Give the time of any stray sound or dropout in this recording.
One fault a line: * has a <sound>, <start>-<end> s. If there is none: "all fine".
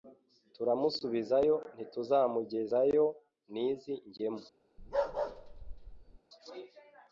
* has a bark, 4.8-6.2 s